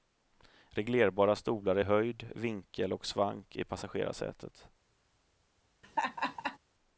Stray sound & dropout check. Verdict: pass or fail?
fail